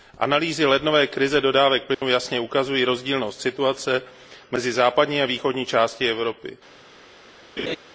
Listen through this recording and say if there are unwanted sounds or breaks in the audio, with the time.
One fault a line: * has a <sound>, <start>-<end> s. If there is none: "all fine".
* has a dropout, 1.9-2.0 s
* has a laugh, 7.6-7.8 s